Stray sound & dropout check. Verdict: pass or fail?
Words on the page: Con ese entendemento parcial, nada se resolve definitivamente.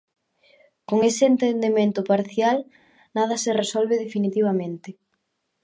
pass